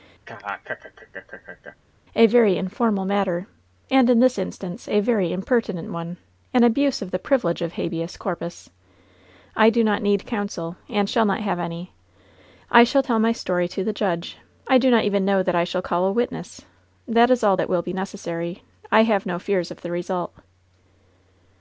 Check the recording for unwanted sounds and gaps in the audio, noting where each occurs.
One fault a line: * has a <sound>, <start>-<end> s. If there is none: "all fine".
* has a laugh, 0.3-1.8 s